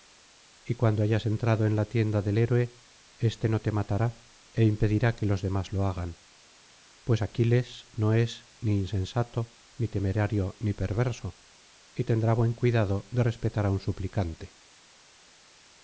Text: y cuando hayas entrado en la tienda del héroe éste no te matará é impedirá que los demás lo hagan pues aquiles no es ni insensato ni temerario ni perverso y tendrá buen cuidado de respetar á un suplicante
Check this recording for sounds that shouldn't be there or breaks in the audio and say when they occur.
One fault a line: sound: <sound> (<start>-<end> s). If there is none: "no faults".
no faults